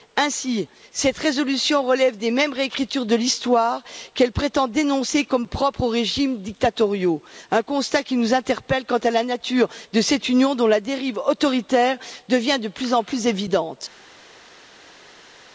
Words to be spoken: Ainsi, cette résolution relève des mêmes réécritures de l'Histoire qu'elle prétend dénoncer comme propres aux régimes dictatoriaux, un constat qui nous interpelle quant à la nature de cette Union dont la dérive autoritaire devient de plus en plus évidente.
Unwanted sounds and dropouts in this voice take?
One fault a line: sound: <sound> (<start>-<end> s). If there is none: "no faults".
no faults